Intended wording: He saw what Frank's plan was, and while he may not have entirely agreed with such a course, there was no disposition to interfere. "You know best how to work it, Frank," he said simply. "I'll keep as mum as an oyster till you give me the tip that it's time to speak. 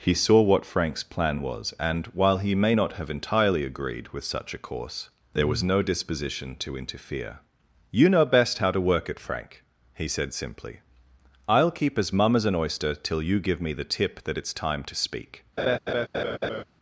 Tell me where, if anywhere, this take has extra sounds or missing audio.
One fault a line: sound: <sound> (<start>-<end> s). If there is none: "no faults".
sound: laugh (15.6-16.6 s)